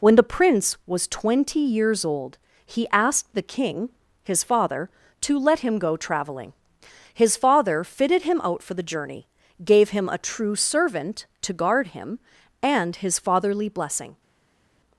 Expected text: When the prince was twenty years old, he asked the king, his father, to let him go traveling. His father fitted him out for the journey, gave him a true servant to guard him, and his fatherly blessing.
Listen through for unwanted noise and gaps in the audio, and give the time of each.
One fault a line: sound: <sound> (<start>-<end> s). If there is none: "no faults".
no faults